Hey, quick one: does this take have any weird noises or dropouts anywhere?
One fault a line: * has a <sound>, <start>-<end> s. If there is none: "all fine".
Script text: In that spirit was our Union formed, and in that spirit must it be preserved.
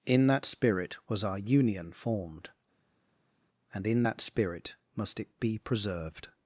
all fine